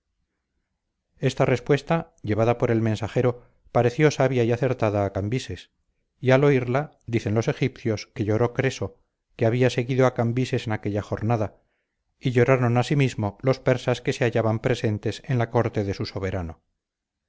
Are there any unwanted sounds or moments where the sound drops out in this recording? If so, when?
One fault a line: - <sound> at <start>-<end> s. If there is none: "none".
none